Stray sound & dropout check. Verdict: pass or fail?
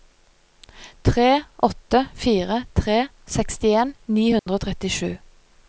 fail